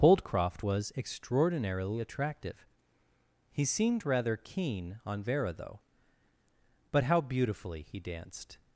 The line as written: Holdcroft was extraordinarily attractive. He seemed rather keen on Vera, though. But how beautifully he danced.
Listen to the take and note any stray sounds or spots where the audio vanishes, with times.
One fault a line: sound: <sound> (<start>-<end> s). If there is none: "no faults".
no faults